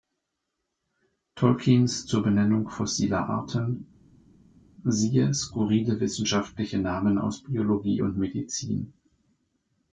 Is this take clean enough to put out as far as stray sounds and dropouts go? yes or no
yes